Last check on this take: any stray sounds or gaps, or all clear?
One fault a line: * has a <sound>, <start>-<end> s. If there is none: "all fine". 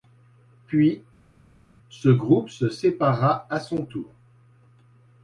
all fine